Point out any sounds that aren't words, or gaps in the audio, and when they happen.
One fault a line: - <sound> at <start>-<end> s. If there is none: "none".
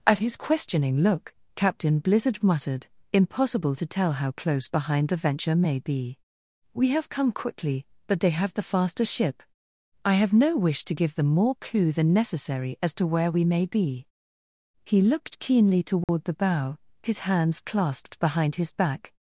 - dropout at 16.0-16.1 s